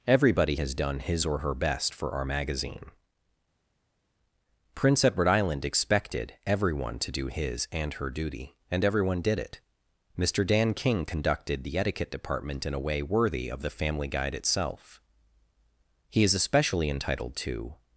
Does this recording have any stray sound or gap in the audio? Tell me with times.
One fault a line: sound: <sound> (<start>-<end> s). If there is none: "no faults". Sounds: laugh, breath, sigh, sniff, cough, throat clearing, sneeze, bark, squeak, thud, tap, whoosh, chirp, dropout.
no faults